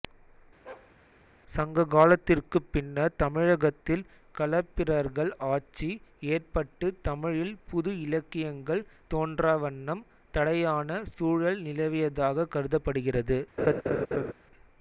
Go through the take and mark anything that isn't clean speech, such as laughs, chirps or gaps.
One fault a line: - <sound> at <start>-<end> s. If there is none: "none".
- bark at 0.6-0.9 s
- laugh at 13.6-14.3 s